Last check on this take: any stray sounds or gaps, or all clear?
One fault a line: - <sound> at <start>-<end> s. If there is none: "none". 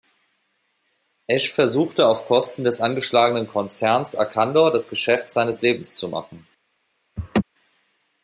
- laugh at 7.2-7.4 s